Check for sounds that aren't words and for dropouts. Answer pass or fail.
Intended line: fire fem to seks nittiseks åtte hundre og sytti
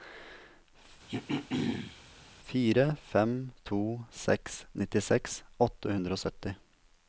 fail